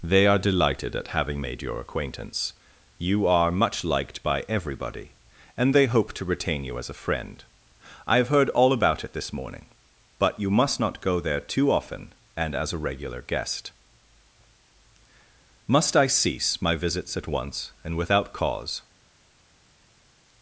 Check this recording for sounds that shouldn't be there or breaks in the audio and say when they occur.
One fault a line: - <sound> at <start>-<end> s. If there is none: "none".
none